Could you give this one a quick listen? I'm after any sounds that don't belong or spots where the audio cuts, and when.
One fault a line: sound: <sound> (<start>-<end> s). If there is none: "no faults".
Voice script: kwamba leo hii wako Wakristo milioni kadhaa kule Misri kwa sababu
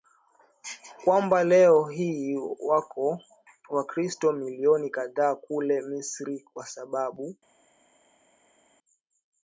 no faults